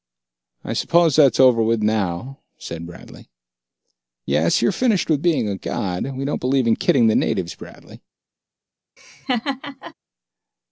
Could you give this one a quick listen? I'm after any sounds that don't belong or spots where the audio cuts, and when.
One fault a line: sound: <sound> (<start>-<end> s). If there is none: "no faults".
sound: laugh (9.0-9.9 s)